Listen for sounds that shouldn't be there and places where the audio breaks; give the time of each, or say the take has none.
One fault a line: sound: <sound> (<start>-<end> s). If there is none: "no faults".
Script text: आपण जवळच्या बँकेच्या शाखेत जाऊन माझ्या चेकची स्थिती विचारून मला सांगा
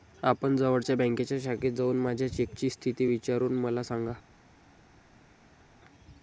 no faults